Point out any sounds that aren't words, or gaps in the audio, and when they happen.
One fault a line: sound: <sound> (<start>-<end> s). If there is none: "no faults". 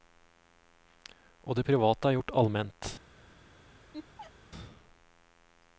sound: laugh (3.9-4.3 s)